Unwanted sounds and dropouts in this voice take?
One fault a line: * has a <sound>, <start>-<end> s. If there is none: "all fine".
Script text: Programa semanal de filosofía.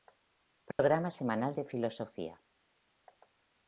* has a dropout, 0.7-0.8 s